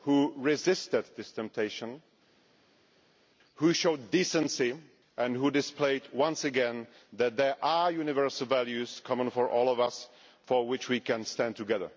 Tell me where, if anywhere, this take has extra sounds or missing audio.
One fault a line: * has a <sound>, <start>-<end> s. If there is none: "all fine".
all fine